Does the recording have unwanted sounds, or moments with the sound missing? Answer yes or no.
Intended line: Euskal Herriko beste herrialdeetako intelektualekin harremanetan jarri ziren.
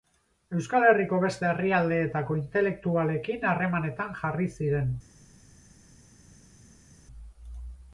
no